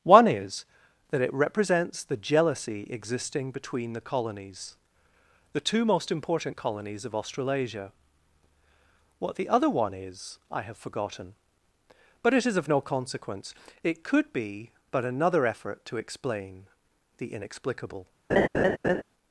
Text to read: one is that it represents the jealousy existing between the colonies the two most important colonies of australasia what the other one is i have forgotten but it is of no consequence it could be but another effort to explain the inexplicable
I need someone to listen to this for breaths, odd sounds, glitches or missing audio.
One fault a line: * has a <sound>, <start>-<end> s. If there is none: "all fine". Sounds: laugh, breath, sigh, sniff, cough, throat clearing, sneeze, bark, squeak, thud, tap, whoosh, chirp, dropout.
* has a laugh, 18.3-19.0 s